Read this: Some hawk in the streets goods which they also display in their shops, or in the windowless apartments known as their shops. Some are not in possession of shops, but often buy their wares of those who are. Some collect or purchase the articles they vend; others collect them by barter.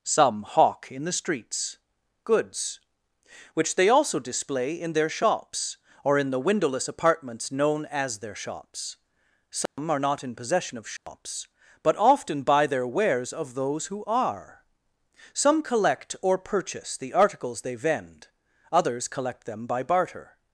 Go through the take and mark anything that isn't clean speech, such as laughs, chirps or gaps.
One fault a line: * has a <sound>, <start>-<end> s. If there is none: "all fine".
* has a dropout, 9.7-9.8 s
* has a dropout, 11.0-11.1 s